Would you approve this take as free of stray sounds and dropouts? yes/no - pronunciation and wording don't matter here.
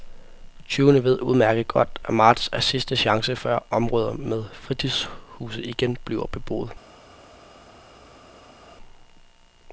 yes